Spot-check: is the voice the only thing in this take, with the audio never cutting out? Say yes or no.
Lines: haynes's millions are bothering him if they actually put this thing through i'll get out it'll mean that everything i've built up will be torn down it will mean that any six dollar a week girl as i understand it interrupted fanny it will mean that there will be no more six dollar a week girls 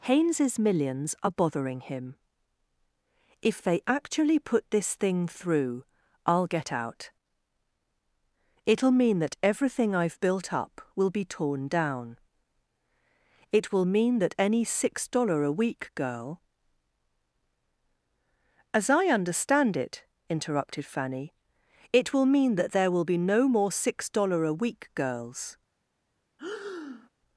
no